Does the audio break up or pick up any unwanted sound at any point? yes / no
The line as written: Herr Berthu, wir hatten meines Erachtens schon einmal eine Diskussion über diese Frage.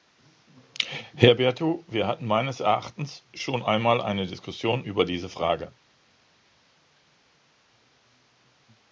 no